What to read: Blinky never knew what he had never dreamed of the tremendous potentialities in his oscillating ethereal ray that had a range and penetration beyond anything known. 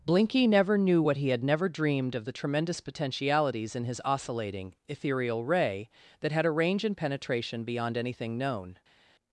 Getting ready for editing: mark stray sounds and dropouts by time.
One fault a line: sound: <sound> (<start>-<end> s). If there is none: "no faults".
no faults